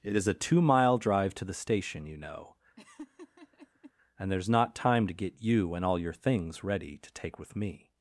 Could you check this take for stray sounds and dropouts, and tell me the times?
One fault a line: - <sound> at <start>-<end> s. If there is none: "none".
- laugh at 2.8-3.9 s